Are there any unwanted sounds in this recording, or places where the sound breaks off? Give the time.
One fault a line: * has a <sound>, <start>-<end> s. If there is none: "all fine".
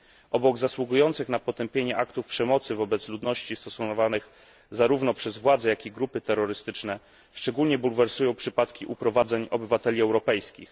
all fine